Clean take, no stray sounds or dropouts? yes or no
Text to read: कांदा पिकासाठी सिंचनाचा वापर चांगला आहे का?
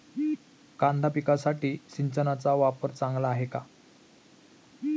yes